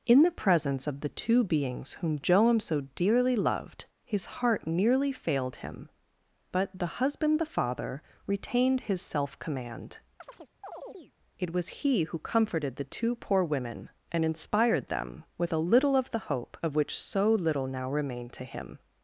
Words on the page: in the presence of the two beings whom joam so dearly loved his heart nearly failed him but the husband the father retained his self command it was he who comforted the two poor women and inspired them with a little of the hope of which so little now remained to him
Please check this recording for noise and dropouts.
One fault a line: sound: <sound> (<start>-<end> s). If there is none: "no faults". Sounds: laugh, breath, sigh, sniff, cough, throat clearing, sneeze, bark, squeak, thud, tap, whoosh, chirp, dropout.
sound: chirp (10.2-11.1 s)